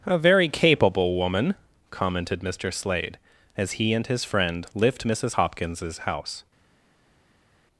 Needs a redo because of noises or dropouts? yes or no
no